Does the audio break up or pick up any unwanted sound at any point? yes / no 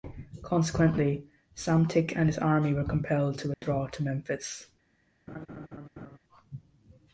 yes